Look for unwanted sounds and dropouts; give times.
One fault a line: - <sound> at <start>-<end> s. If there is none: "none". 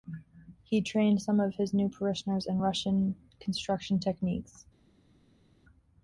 none